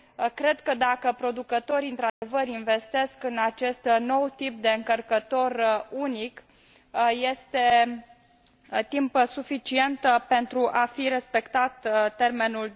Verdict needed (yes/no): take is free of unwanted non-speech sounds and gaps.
no